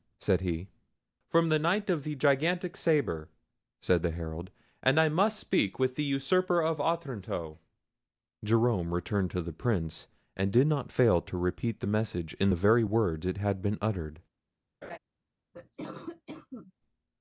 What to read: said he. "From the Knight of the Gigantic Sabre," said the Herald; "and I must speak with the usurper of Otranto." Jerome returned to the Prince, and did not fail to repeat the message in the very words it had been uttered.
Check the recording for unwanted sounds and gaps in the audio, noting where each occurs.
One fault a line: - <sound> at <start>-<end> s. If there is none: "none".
- laugh at 14.8-15.0 s
- cough at 15.5-16.7 s